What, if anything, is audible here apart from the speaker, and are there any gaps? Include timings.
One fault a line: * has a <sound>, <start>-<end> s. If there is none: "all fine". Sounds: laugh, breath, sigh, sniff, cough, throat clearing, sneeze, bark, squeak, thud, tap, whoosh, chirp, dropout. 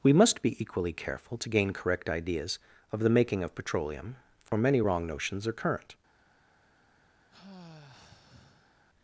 * has a dropout, 4.5-4.5 s
* has a sigh, 7.3-8.8 s